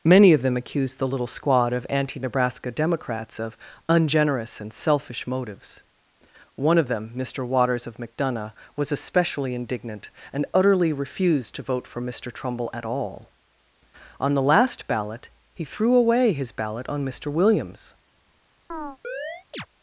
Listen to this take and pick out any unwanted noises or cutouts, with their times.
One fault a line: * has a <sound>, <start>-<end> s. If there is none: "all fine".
* has a chirp, 18.7-19.7 s